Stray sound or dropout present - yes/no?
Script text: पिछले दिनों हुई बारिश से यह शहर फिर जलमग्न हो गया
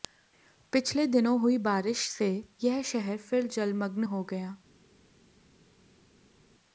no